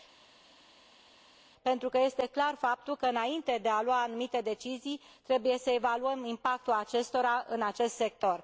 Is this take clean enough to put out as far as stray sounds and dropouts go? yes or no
yes